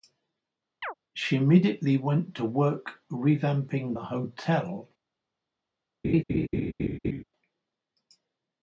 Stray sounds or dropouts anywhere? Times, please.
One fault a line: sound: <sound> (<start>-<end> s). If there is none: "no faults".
sound: chirp (0.8-0.9 s)
sound: laugh (6.0-7.2 s)